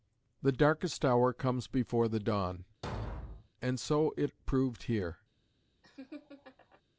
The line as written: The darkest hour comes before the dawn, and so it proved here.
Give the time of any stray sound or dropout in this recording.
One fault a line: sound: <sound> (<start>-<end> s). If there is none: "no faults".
sound: thud (2.8-3.5 s)
sound: laugh (5.8-6.8 s)